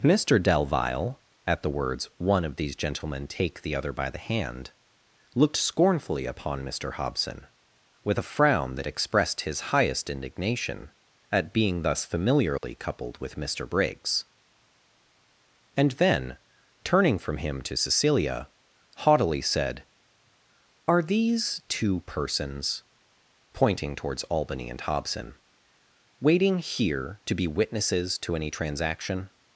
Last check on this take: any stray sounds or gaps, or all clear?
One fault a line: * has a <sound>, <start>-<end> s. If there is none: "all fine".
* has a dropout, 12.6-12.6 s